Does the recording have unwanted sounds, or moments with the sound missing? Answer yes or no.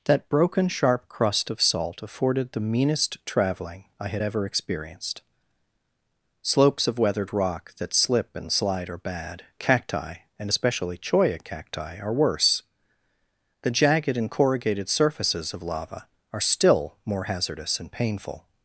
no